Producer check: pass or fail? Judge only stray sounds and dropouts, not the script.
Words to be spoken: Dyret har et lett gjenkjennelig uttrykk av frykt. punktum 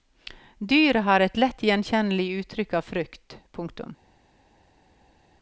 pass